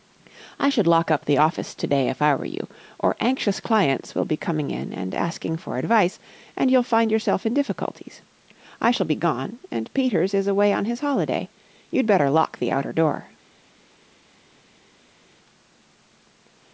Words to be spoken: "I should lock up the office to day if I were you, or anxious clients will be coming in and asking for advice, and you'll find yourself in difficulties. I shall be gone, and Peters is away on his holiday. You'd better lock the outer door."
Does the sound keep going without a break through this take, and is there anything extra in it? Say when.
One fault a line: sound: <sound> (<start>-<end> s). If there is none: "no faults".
no faults